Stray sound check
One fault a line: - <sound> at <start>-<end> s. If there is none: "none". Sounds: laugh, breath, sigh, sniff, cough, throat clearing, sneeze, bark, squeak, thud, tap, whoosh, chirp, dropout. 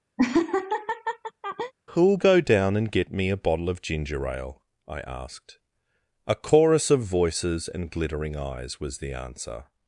- laugh at 0.2-1.7 s